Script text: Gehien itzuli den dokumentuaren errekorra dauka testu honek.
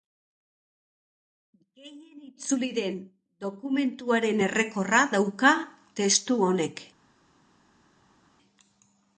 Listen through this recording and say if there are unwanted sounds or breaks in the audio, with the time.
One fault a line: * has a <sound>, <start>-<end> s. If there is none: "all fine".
all fine